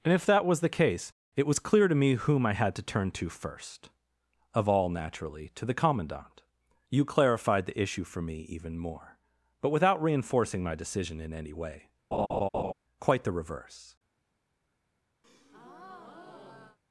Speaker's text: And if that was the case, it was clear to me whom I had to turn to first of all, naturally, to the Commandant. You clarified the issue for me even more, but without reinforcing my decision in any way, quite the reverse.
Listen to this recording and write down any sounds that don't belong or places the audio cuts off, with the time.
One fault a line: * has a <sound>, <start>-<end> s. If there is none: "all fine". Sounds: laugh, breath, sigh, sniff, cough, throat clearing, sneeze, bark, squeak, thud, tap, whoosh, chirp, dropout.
* has a laugh, 12.1-12.7 s
* has a breath, 15.2-16.8 s